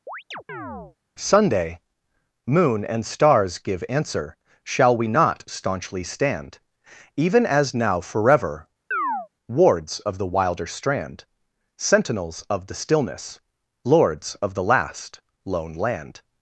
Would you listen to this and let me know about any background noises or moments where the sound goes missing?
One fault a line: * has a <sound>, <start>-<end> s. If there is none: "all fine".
* has a chirp, 0.1-1.0 s
* has a chirp, 8.9-9.3 s